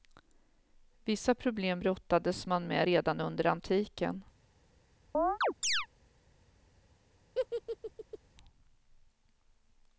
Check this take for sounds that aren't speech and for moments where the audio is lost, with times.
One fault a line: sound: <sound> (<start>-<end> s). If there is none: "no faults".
sound: chirp (5.1-5.9 s)
sound: laugh (7.3-8.2 s)